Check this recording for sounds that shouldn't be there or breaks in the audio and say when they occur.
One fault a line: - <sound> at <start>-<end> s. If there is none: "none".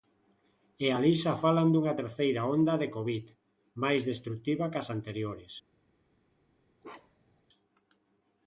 - bark at 6.8-7.4 s